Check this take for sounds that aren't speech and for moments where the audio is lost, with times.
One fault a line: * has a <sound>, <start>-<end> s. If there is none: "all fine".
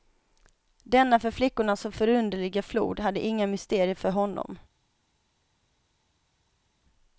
all fine